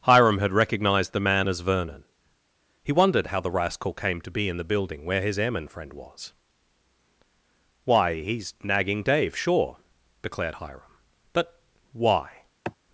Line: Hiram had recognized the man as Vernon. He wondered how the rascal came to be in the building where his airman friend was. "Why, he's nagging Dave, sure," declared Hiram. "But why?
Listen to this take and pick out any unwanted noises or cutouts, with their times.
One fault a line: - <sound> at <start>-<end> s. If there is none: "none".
- sigh at 12.6-12.8 s